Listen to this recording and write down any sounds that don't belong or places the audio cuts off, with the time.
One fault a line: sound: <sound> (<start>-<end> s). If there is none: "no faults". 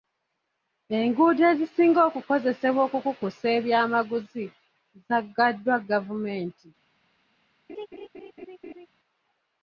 sound: laugh (7.7-8.9 s)